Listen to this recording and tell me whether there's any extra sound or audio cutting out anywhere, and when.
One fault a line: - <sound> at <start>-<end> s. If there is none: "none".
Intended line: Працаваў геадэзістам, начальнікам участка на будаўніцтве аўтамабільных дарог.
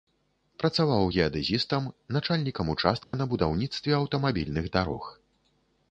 - dropout at 3.0-3.1 s